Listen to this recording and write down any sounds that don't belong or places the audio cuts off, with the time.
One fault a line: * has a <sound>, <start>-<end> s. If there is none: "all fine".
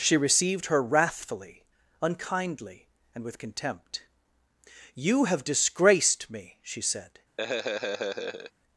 * has a laugh, 7.4-8.5 s